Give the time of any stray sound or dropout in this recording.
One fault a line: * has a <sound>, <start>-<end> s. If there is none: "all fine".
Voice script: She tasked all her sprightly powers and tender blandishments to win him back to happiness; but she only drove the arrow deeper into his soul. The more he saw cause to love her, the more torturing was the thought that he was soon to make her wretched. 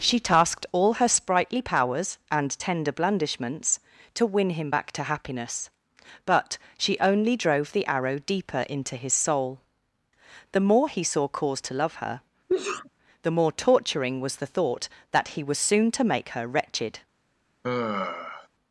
* has a sneeze, 12.5-12.9 s
* has a sigh, 17.6-18.5 s